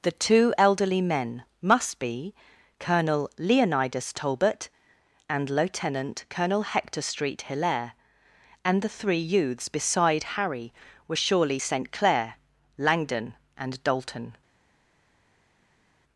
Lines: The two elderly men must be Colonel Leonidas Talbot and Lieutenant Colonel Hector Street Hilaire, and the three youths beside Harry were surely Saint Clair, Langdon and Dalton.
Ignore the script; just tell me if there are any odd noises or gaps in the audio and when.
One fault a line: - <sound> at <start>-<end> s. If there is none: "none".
none